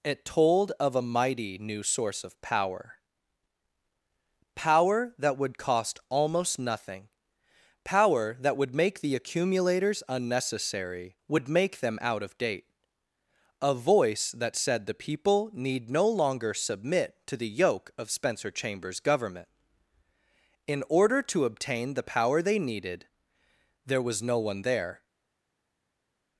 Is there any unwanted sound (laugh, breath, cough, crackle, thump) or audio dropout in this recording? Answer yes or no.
no